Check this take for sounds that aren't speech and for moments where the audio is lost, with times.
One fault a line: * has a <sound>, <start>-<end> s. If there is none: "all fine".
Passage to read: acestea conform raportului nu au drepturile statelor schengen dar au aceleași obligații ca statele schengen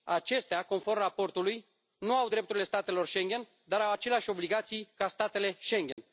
* has a dropout, 5.9-6.0 s